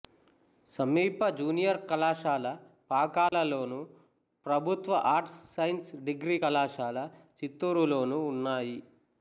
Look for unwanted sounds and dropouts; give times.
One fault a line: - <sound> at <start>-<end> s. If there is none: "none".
- dropout at 3.3-3.3 s